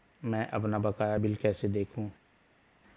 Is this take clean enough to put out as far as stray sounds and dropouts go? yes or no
yes